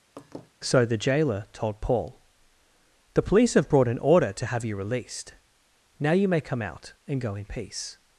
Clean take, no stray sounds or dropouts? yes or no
no